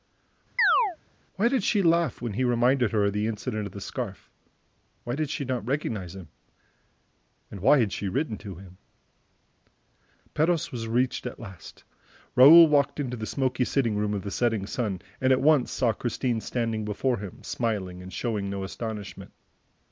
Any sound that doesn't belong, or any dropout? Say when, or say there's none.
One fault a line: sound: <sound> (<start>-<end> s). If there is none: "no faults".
sound: chirp (0.6-1.0 s)